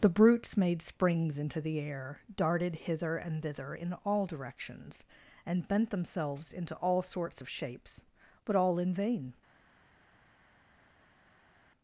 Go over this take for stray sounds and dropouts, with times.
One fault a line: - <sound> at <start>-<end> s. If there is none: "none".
none